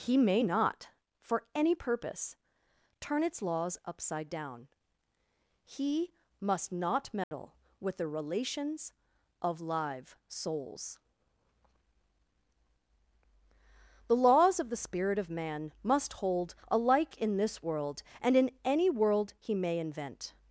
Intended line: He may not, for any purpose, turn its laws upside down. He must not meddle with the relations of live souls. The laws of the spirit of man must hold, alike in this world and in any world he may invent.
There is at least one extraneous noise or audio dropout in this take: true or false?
true